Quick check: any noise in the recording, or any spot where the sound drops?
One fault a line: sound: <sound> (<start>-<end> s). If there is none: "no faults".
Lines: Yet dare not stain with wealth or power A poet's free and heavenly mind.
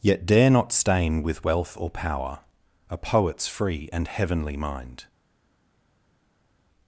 no faults